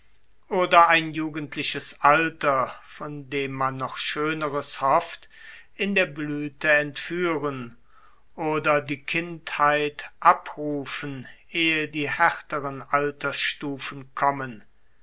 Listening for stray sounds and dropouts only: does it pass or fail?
pass